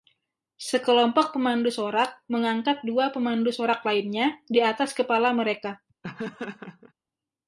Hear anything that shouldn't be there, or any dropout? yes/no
yes